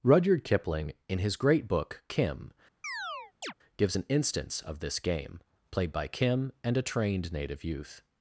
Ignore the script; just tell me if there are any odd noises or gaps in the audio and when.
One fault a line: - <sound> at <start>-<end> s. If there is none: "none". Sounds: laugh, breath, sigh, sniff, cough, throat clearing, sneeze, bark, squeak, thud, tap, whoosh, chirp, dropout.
- chirp at 2.8-3.5 s